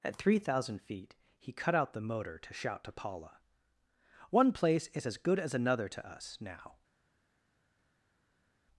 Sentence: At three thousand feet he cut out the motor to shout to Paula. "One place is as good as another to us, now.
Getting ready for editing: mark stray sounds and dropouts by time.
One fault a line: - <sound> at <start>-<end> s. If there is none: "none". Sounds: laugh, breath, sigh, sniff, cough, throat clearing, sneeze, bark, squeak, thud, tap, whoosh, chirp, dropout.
none